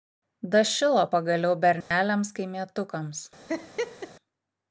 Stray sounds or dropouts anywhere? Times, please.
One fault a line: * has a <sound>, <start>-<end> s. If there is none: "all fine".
* has a dropout, 1.8-1.9 s
* has a laugh, 3.5-4.1 s